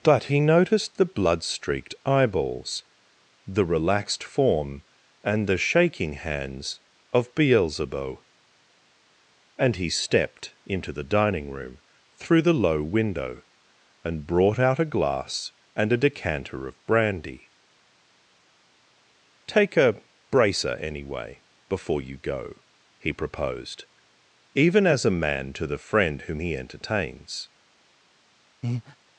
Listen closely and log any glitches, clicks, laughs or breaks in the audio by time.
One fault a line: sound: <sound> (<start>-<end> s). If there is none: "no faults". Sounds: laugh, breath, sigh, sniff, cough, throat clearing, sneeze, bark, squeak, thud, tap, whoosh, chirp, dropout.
sound: breath (28.6-29.0 s)